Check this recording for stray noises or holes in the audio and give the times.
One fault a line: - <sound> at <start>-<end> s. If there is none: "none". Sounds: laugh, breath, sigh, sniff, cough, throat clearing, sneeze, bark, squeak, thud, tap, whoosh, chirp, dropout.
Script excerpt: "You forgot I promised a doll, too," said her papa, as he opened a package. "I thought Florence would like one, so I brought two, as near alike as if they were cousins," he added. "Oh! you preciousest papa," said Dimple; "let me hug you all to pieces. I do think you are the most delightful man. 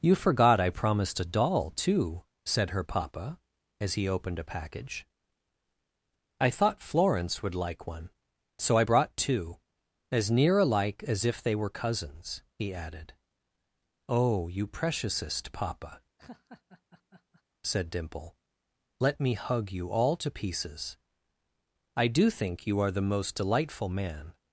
- laugh at 16.2-17.4 s